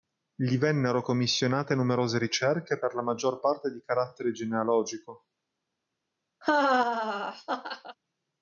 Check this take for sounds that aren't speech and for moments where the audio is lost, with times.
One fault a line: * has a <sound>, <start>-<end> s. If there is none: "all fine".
* has a laugh, 6.4-8.0 s